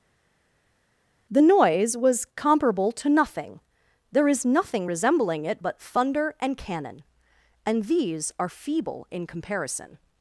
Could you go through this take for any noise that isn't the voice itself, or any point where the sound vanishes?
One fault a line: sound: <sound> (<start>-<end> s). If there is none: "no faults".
no faults